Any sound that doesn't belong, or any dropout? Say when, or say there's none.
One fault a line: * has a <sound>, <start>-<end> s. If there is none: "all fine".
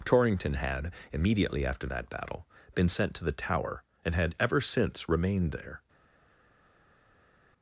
all fine